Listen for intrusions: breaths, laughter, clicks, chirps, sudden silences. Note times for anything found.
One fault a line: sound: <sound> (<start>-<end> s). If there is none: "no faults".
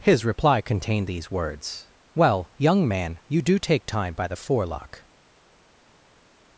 no faults